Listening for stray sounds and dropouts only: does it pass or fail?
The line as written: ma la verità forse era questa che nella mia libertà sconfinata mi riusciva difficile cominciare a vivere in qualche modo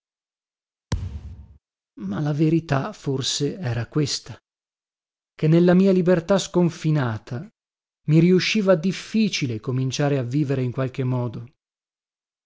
fail